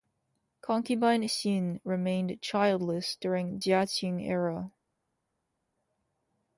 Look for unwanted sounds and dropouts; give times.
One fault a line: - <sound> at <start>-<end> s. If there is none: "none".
none